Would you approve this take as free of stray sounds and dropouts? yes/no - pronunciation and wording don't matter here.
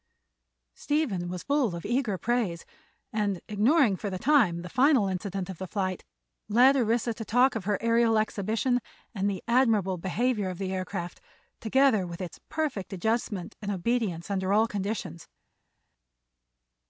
yes